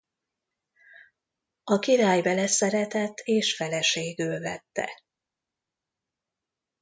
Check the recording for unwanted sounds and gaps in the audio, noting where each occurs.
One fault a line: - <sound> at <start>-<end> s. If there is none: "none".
none